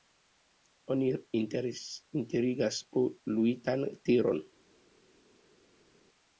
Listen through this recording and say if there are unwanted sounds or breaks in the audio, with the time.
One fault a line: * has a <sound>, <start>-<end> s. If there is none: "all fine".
all fine